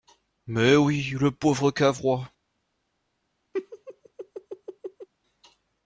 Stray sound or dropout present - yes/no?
yes